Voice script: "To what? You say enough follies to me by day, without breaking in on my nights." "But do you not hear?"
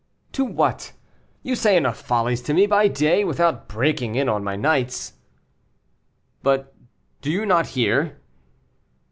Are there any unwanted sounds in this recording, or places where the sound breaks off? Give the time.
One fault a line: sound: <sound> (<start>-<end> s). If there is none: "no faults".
no faults